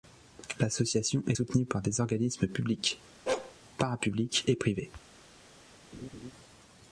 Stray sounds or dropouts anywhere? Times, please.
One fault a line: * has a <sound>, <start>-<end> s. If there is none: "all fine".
* has a bark, 3.3-3.5 s
* has a laugh, 5.9-6.3 s